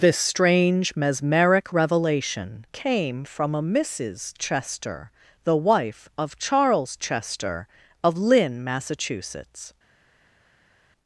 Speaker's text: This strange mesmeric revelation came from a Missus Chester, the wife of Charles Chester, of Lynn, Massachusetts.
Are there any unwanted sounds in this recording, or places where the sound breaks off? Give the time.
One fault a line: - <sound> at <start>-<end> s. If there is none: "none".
none